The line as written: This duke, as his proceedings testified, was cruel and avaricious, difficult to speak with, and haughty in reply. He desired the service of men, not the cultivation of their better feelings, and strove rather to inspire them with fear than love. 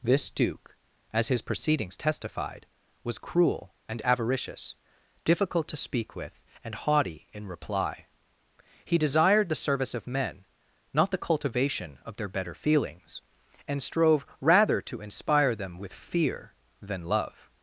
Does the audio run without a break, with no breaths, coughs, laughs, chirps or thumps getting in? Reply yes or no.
yes